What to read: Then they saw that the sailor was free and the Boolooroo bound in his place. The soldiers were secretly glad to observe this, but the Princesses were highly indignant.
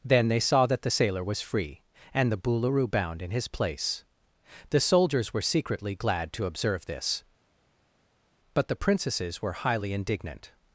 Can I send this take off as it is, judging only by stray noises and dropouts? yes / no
yes